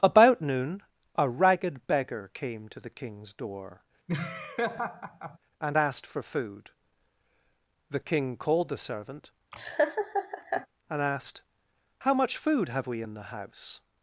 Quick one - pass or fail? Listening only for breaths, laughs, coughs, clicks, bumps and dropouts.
fail